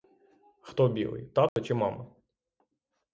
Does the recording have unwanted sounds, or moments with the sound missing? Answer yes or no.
yes